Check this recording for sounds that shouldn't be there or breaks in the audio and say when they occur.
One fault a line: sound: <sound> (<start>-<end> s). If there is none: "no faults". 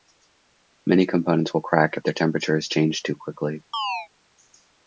sound: chirp (3.7-4.1 s)